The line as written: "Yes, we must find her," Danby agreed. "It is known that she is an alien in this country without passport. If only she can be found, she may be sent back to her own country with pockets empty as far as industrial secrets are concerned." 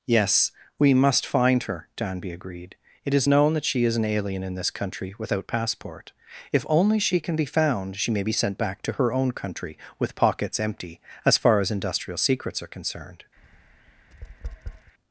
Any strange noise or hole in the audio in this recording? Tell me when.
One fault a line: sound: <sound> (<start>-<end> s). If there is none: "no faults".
sound: tap (13.4-14.9 s)